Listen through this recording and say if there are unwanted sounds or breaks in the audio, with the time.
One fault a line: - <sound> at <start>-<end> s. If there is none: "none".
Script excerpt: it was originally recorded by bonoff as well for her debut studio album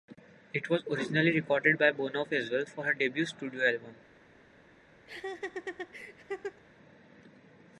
- laugh at 5.1-6.6 s